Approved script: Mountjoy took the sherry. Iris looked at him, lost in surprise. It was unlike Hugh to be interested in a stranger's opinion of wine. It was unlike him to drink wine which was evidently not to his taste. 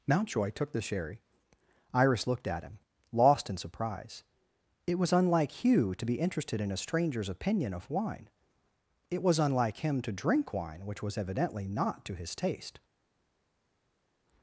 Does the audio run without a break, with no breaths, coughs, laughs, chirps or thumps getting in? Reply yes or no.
yes